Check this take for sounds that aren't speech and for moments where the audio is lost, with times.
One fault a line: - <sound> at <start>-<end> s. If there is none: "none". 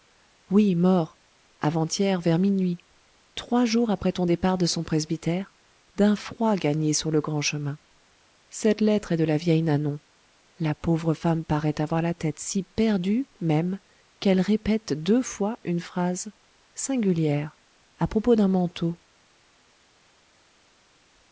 none